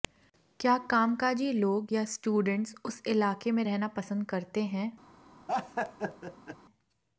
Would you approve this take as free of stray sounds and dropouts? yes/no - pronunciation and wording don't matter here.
no